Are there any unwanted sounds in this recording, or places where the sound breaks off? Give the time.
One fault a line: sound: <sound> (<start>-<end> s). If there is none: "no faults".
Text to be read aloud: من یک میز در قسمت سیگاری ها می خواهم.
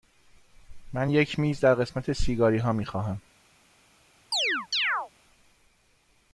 sound: chirp (4.3-5.1 s)